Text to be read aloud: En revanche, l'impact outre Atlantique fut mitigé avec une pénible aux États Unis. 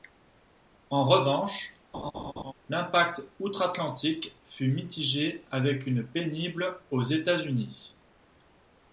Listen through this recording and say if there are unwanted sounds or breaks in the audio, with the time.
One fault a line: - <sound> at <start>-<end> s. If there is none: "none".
- laugh at 1.9-2.5 s